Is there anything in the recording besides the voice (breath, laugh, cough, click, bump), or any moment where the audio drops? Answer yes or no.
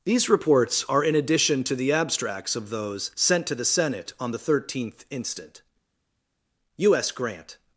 no